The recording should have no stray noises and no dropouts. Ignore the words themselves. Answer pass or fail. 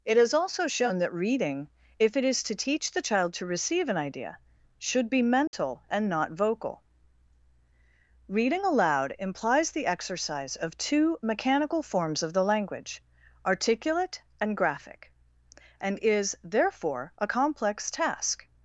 fail